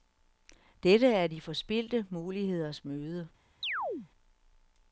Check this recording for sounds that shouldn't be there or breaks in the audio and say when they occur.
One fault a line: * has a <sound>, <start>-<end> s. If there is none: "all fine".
* has a chirp, 3.6-4.1 s